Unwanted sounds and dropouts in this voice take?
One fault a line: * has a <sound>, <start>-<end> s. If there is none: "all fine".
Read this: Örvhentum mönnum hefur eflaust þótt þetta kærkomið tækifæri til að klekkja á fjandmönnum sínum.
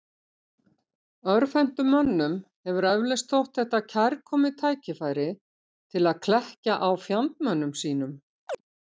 * has a chirp, 8.5-8.6 s